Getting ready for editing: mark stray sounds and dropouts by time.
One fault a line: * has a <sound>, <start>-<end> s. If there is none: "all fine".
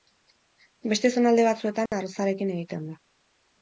* has a dropout, 1.9-1.9 s